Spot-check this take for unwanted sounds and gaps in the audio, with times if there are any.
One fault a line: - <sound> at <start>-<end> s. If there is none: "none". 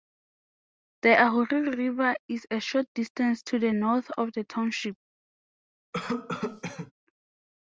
- cough at 5.9-6.9 s